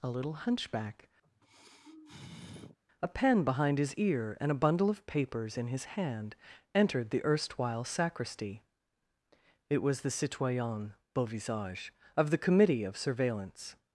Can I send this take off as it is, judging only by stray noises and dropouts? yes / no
no